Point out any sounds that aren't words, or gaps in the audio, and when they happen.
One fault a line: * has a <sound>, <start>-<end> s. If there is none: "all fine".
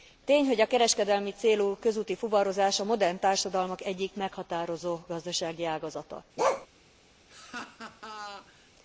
* has a bark, 6.4-6.7 s
* has a laugh, 7.3-8.7 s